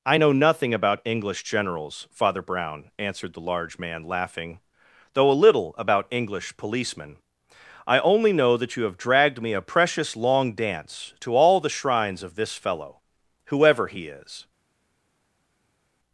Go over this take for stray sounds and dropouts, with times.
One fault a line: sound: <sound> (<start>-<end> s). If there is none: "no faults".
no faults